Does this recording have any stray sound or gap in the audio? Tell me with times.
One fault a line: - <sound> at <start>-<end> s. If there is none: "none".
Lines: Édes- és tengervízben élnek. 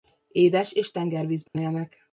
- dropout at 1.5-1.5 s